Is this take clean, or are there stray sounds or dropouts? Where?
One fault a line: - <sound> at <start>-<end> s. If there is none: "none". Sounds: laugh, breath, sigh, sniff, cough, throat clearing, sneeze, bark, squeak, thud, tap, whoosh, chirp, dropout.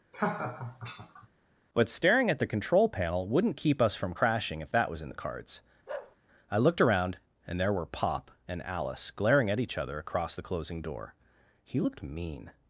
- laugh at 0.1-1.3 s
- bark at 5.9-6.2 s